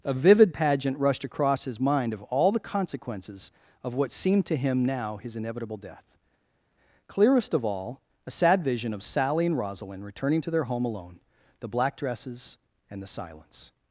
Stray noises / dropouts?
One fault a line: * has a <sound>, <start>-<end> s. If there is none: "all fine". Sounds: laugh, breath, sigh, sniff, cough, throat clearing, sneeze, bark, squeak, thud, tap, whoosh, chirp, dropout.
all fine